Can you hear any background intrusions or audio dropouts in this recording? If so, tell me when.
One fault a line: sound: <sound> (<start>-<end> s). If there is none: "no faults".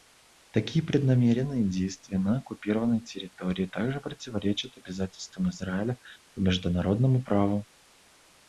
no faults